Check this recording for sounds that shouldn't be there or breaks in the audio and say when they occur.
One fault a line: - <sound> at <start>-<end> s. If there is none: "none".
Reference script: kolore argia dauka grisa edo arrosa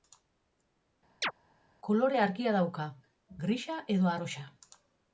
- chirp at 1.2-1.3 s